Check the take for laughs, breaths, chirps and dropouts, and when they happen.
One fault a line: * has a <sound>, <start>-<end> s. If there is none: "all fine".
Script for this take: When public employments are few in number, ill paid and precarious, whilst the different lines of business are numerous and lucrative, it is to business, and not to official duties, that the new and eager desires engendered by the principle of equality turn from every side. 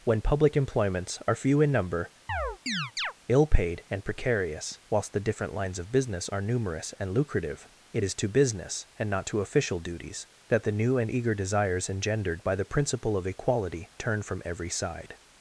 * has a chirp, 2.3-3.1 s